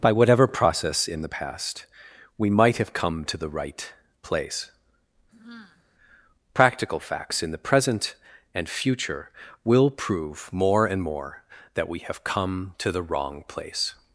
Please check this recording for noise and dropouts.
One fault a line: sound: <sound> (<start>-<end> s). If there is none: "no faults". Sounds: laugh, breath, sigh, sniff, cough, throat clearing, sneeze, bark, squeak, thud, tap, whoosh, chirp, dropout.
sound: sigh (5.3-5.8 s)